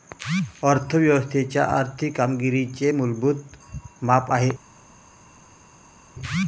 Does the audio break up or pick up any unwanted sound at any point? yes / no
no